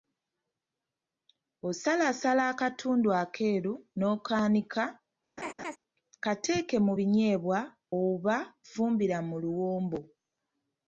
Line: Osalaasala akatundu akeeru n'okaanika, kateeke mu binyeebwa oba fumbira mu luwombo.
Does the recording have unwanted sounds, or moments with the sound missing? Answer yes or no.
yes